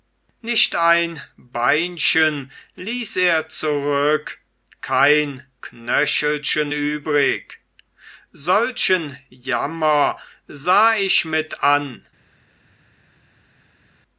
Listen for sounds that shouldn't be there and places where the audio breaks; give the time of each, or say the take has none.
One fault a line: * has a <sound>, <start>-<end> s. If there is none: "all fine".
all fine